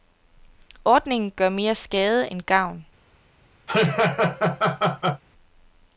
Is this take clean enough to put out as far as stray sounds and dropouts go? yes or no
no